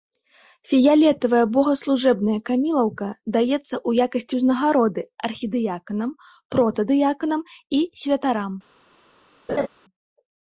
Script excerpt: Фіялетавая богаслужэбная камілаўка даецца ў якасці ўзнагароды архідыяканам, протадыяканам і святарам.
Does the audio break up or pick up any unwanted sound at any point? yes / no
yes